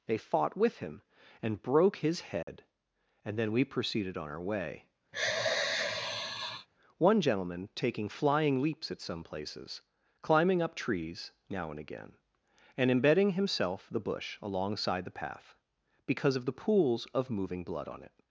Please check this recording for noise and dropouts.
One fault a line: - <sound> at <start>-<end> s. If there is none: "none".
- dropout at 2.4-2.5 s
- sigh at 5.1-6.7 s